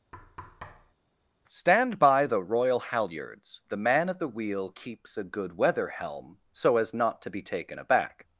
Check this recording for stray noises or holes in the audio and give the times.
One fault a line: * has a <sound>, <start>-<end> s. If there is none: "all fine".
* has a thud, 0.1-1.0 s